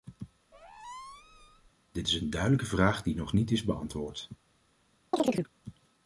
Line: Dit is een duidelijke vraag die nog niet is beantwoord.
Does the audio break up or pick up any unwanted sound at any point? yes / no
yes